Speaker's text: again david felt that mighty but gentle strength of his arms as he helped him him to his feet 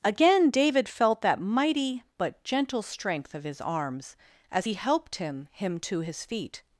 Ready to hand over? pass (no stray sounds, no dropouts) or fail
pass